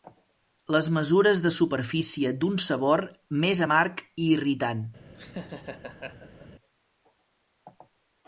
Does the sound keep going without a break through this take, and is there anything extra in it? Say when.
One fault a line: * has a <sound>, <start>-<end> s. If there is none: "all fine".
* has a laugh, 5.1-6.5 s